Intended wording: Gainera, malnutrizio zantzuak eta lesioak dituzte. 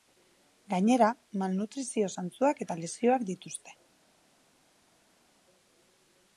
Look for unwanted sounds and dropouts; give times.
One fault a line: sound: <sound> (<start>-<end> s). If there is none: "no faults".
no faults